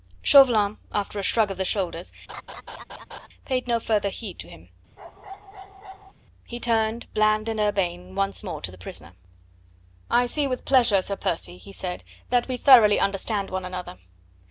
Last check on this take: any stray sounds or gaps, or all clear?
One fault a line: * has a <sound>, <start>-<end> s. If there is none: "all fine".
* has a laugh, 2.3-3.3 s
* has a bark, 5.0-6.1 s